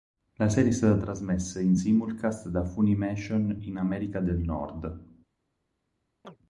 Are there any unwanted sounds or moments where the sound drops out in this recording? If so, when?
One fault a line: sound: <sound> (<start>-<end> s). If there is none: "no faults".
sound: chirp (6.2-6.4 s)